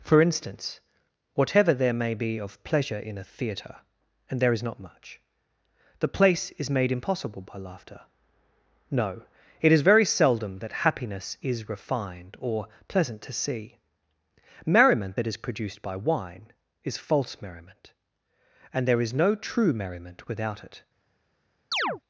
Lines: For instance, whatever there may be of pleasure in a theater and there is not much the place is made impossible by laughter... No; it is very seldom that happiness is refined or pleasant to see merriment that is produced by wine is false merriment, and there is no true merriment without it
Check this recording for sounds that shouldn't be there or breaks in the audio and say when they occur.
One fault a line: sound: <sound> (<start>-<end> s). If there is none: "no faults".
sound: chirp (21.7-22.0 s)